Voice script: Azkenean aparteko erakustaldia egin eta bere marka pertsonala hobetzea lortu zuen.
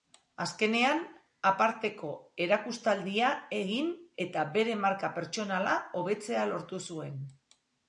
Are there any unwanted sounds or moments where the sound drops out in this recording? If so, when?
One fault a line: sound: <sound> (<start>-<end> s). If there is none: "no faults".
no faults